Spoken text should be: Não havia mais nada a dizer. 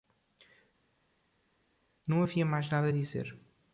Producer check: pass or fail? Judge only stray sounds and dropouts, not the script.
pass